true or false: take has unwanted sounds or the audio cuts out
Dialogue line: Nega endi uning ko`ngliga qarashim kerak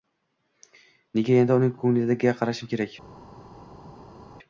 false